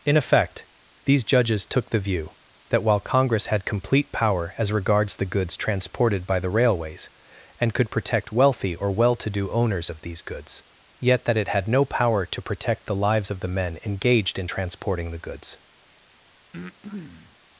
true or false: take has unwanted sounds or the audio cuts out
true